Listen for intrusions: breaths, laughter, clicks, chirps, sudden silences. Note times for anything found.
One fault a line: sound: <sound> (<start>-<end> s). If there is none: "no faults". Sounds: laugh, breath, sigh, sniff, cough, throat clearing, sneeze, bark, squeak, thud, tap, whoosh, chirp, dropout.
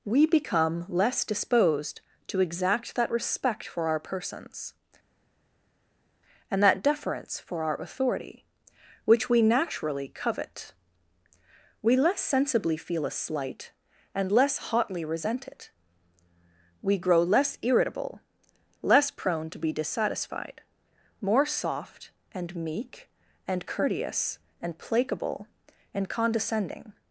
no faults